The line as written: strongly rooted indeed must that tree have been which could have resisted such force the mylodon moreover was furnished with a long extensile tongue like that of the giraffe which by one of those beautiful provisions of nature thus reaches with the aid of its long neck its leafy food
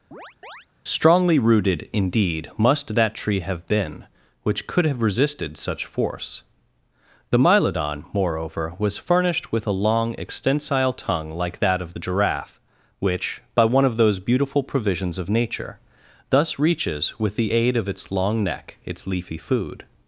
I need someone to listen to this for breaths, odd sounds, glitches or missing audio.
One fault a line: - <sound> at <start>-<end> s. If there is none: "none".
- chirp at 0.1-0.7 s